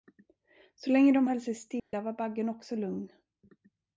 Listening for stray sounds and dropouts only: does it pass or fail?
fail